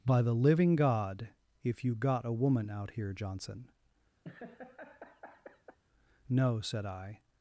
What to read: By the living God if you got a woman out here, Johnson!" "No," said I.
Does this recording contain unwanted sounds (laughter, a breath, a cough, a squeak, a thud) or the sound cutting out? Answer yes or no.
yes